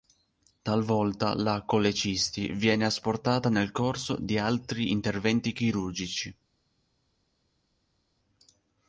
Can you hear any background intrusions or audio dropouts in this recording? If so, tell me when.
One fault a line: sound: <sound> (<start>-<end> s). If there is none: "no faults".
no faults